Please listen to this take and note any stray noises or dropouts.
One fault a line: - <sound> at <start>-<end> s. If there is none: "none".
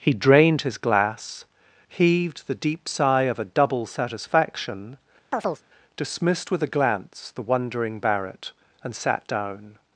- chirp at 5.3-5.6 s